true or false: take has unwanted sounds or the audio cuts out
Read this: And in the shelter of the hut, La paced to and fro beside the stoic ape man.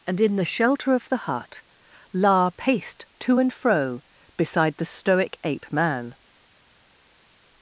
false